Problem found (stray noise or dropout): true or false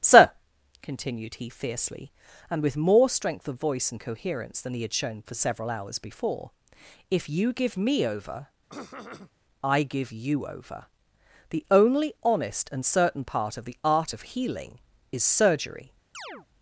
true